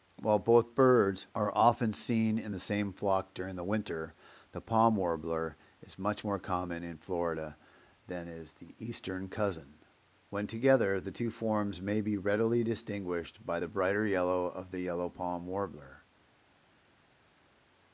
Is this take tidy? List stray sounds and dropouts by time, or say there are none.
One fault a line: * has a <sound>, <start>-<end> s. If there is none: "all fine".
all fine